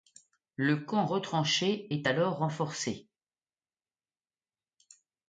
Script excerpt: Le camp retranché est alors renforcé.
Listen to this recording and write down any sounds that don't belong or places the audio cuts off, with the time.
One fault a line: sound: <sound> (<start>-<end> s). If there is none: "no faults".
no faults